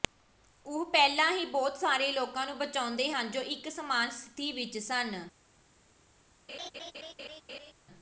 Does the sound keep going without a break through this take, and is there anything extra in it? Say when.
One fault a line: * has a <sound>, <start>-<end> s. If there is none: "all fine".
* has a laugh, 6.5-7.7 s